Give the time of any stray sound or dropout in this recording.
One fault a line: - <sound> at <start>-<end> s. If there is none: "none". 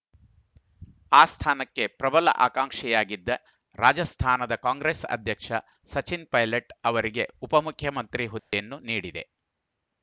- dropout at 8.4-8.5 s